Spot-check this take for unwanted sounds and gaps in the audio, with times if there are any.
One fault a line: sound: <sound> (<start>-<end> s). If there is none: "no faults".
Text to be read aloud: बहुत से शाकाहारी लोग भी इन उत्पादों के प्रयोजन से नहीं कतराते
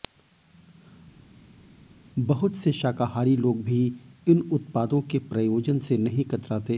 no faults